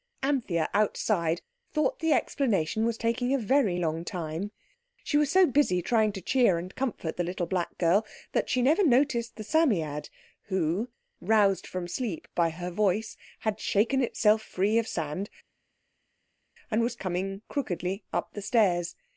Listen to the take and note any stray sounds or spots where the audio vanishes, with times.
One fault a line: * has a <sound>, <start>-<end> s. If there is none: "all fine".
all fine